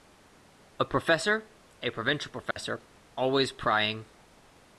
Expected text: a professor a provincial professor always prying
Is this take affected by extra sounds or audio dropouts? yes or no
yes